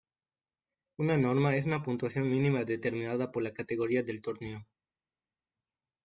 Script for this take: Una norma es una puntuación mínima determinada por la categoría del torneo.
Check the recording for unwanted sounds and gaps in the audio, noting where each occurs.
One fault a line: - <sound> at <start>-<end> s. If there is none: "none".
none